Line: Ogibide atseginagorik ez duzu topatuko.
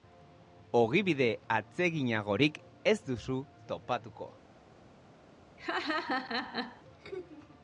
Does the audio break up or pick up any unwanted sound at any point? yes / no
yes